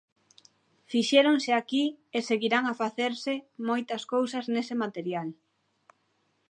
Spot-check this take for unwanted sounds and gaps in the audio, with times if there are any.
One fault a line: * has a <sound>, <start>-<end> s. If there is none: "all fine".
all fine